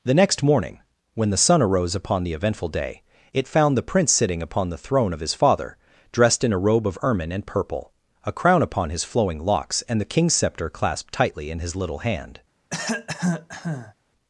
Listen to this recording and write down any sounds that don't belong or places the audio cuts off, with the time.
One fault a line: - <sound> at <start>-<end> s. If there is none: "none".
- cough at 12.7-13.9 s